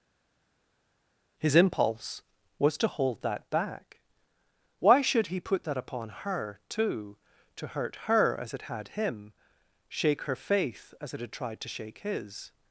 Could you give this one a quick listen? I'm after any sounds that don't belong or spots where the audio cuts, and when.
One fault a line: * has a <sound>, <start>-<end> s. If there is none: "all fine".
all fine